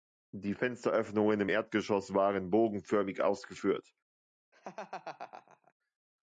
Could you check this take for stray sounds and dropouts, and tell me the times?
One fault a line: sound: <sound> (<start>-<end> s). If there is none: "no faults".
sound: laugh (4.5-5.7 s)